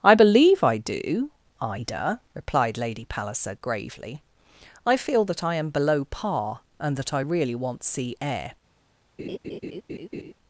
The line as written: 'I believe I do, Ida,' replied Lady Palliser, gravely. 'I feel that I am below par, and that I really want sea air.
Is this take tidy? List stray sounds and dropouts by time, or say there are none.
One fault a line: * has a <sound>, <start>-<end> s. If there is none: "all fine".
* has a laugh, 9.2-10.3 s